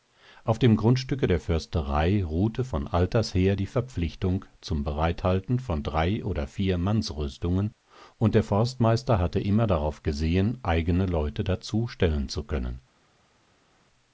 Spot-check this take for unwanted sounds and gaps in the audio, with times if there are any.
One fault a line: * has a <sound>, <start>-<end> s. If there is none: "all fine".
all fine